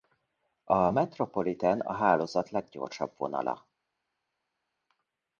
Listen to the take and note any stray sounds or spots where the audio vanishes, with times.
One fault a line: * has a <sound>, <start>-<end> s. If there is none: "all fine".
all fine